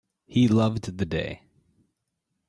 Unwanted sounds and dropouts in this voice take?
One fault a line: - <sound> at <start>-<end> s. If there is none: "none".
none